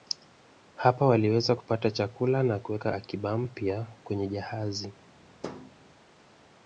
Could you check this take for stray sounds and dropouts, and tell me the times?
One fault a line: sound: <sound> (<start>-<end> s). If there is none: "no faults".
sound: thud (5.4-5.7 s)